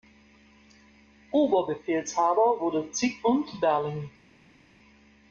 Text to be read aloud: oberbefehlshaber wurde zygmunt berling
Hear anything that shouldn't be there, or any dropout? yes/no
no